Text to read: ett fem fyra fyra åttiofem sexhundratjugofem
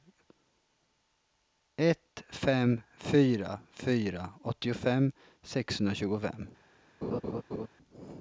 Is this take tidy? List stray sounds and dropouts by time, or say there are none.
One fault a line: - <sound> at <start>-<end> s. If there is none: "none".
- laugh at 7.0-7.7 s